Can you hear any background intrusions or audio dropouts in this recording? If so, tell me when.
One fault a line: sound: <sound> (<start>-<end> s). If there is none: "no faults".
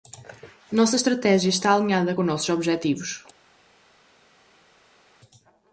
no faults